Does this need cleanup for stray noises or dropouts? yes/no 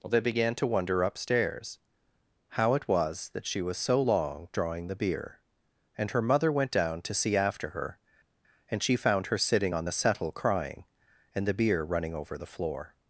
no